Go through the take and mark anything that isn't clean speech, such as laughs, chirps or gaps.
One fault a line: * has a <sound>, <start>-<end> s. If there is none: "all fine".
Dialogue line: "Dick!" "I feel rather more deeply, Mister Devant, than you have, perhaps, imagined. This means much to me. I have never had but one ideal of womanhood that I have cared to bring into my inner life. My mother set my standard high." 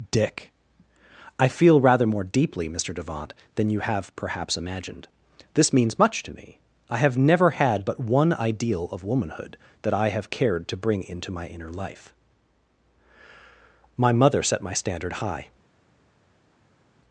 all fine